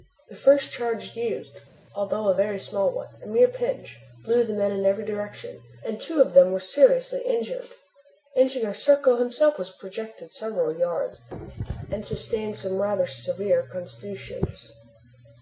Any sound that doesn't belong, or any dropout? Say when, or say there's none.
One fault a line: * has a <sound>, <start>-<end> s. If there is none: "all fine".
all fine